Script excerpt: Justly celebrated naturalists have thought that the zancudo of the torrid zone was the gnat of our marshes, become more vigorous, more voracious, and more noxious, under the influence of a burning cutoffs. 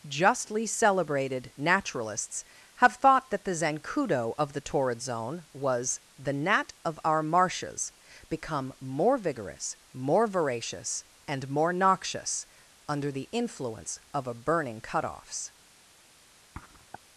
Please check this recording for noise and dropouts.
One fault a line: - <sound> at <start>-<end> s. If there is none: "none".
- sniff at 16.5-17.0 s